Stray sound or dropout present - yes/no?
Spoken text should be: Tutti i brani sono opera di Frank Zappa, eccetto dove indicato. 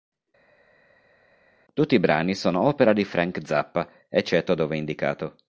no